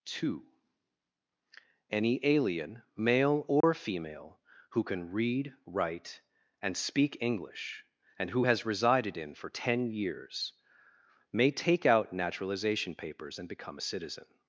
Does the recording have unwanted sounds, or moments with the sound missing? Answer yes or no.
yes